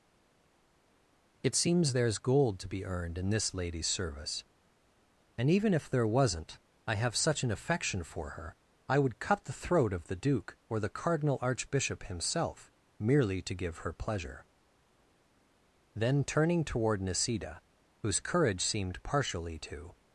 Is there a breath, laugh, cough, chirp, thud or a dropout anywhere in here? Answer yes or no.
no